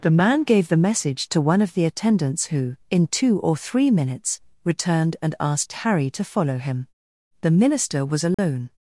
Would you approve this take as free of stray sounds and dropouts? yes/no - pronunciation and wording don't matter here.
no